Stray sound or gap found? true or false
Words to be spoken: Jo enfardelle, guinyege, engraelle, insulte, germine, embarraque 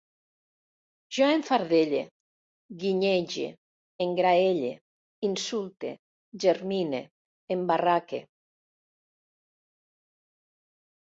false